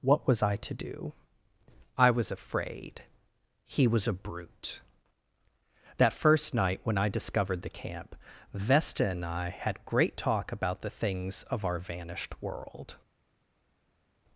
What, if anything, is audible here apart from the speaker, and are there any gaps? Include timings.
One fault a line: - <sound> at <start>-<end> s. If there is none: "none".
none